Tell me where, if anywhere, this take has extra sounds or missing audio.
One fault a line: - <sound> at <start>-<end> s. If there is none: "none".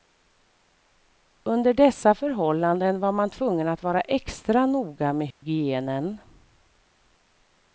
- dropout at 5.3-5.4 s